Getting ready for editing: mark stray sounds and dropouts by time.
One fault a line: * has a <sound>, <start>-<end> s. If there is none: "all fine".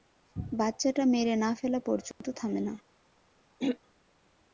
* has a dropout, 2.1-2.2 s
* has a throat clearing, 3.6-3.8 s